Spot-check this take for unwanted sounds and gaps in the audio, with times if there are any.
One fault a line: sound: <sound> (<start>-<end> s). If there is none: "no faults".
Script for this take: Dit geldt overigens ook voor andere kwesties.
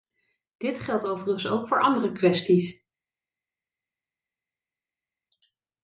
no faults